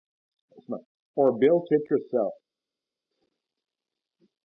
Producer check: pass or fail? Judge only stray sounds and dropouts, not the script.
pass